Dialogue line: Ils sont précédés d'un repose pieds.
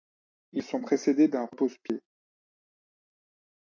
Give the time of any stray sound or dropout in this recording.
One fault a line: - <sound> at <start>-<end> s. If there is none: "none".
none